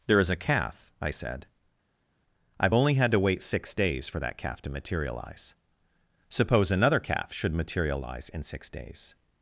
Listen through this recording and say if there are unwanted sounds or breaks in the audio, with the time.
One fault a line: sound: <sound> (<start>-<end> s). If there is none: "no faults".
no faults